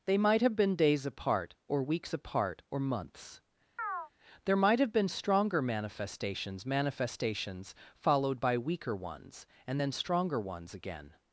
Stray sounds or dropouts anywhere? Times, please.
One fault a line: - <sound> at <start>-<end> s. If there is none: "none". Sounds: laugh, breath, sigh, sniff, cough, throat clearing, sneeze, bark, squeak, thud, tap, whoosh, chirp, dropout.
- chirp at 3.8-4.1 s